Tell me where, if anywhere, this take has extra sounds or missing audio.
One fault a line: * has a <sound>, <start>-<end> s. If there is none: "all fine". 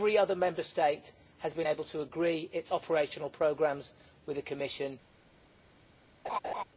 * has a laugh, 6.2-6.6 s